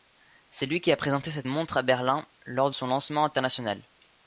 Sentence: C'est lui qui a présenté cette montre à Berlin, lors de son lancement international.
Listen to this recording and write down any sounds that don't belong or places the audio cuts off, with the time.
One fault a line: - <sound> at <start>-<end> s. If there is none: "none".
none